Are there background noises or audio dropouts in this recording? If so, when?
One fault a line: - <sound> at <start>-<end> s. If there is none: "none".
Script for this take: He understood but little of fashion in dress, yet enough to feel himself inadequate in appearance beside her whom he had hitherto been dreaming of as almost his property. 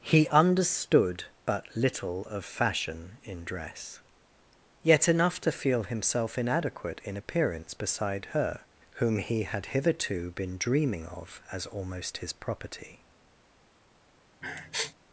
- sniff at 14.4-14.9 s